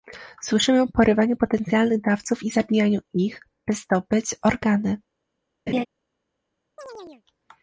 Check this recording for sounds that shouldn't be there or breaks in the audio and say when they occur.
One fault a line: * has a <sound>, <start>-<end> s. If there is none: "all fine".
* has a laugh, 5.7-5.9 s
* has a chirp, 6.8-7.2 s